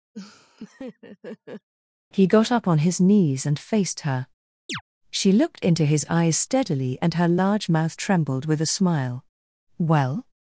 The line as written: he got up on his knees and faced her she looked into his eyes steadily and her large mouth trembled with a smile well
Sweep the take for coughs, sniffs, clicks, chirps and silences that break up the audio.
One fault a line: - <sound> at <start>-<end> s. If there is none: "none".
- laugh at 0.1-1.7 s
- chirp at 4.7-4.8 s